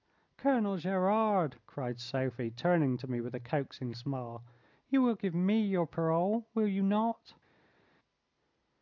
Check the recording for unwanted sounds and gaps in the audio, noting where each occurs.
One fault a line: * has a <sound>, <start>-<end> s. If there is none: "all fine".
all fine